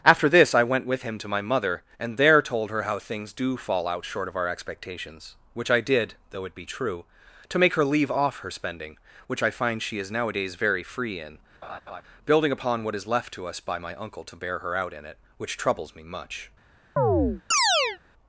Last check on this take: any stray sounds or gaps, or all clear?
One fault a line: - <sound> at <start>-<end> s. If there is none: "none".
- laugh at 11.6-12.0 s
- chirp at 17.0-18.0 s